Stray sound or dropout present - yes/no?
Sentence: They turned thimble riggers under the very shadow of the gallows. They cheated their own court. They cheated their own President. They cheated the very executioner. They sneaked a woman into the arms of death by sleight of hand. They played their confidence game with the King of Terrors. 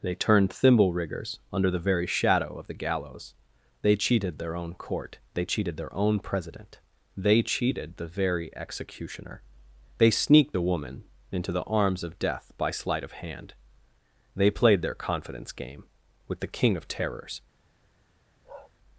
yes